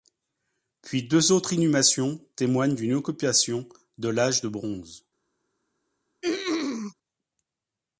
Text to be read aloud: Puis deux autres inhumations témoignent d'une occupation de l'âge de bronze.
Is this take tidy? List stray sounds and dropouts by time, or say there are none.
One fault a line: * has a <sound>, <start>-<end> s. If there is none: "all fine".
* has a throat clearing, 6.2-6.9 s